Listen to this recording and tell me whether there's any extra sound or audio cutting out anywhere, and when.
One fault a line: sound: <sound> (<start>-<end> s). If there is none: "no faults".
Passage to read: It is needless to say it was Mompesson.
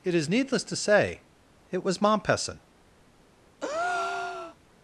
sound: breath (3.6-4.6 s)